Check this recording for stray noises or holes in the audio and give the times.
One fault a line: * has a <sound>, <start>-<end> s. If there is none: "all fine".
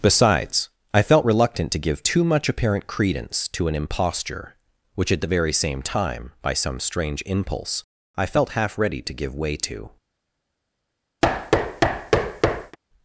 * has a thud, 11.2-12.8 s